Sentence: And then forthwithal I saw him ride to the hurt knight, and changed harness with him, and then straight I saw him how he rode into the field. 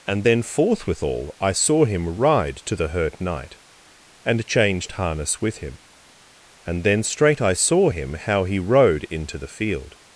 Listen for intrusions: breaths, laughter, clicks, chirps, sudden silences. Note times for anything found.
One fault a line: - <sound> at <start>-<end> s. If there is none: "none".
none